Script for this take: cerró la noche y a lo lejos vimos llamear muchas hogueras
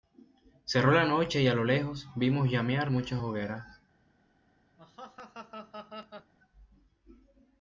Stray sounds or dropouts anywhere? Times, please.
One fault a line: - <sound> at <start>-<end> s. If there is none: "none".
- laugh at 4.8-6.3 s